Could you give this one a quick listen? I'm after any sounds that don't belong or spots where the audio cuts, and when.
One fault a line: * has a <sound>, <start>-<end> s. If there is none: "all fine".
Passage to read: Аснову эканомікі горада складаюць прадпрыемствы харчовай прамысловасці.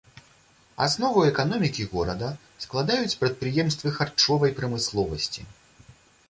all fine